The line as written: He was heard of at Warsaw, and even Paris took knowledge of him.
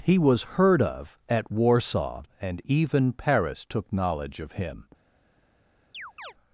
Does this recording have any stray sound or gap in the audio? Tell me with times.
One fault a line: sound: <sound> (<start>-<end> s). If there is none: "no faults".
sound: chirp (5.9-6.3 s)